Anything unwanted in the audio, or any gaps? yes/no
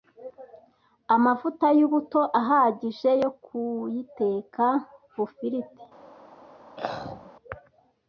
yes